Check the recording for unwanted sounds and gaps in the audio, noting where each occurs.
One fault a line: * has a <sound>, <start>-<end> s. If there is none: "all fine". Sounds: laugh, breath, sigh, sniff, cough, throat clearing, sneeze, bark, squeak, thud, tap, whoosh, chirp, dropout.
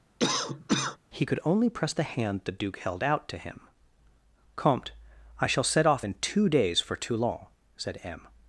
* has a cough, 0.2-1.0 s